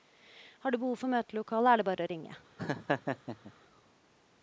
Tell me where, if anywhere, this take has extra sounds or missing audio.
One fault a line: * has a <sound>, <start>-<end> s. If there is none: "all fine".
* has a laugh, 2.6-3.5 s